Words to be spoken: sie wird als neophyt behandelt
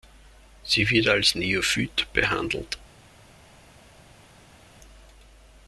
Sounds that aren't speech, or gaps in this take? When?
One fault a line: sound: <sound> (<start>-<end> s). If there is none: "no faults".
no faults